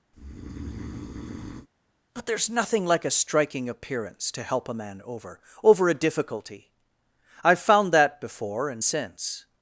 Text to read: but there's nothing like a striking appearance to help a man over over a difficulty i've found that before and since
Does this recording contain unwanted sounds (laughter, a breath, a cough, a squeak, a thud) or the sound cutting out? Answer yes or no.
yes